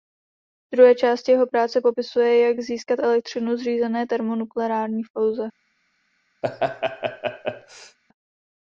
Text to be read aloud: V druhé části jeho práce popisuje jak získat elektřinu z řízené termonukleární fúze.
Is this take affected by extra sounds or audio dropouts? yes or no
yes